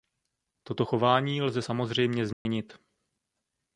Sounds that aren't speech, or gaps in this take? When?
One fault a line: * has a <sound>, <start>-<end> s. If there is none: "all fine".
* has a dropout, 2.3-2.5 s